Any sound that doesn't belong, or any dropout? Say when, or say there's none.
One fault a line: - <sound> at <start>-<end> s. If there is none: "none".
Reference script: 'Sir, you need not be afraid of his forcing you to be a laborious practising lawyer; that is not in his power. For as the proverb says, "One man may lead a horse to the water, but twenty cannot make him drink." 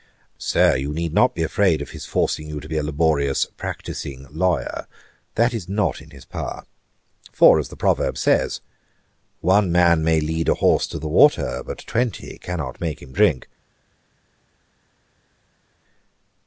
none